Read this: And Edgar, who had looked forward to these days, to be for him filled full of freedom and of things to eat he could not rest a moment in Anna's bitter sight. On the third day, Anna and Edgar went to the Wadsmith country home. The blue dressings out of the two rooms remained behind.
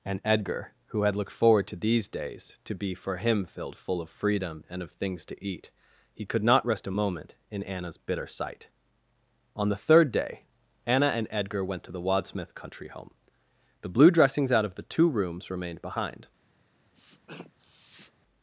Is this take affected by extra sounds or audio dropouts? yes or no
yes